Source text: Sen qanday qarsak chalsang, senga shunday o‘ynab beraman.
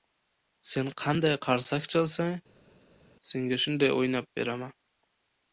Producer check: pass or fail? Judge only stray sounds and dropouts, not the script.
pass